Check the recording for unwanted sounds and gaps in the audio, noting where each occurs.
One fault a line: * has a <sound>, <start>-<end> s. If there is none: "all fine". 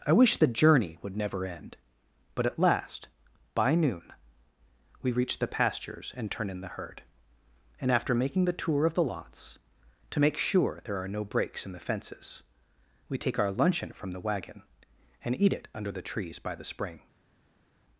all fine